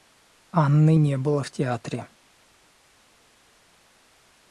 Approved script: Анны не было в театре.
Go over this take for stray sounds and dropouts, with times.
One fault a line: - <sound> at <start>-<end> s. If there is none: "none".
none